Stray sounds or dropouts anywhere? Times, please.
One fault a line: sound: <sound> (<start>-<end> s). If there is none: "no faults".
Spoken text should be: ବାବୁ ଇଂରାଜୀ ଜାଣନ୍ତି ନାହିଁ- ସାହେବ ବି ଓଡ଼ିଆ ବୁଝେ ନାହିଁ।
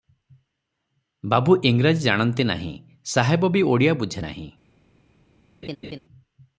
sound: laugh (5.6-6.0 s)